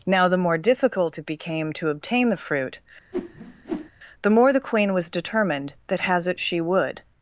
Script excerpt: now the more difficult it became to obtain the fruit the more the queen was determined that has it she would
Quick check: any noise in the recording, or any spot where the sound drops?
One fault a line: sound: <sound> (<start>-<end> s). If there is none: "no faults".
sound: whoosh (3.1-3.9 s)